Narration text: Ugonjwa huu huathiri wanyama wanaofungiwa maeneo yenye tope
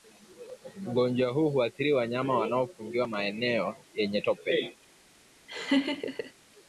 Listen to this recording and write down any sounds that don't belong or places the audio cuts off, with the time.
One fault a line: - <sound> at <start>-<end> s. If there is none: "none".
- laugh at 5.5-6.3 s